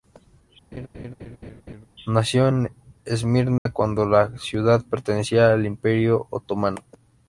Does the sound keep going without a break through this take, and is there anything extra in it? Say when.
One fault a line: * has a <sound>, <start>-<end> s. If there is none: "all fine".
* has a laugh, 0.7-1.9 s
* has a dropout, 3.6-3.7 s